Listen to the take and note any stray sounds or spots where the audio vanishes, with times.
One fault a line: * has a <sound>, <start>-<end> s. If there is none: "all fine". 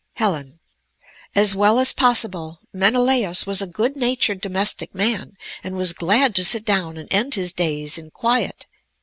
all fine